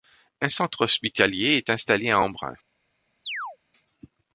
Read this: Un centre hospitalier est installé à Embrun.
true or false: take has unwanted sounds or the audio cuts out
true